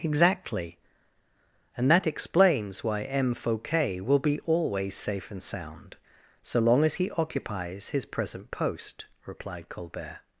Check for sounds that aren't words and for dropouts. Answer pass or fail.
pass